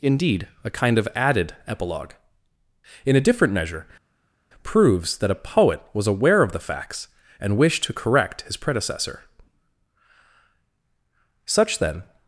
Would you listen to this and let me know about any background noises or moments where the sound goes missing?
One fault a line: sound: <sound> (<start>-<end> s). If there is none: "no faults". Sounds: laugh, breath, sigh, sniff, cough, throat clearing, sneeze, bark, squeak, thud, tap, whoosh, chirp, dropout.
no faults